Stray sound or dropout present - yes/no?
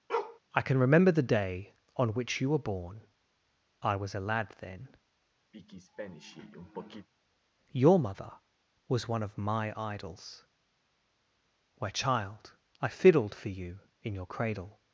yes